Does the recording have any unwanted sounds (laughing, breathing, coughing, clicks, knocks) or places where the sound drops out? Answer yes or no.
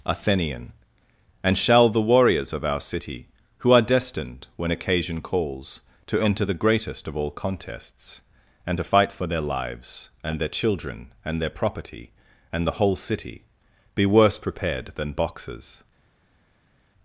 no